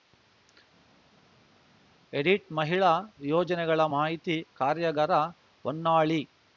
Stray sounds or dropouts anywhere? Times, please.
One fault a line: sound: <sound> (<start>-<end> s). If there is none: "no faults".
no faults